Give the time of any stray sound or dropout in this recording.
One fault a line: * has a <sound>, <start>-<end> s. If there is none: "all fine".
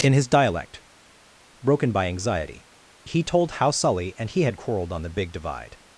all fine